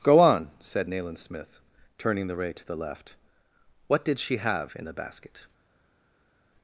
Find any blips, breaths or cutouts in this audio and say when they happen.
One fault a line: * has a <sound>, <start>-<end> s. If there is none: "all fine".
all fine